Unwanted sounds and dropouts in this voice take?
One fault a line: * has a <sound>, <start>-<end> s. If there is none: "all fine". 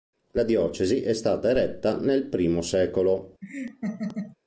* has a laugh, 3.4-4.4 s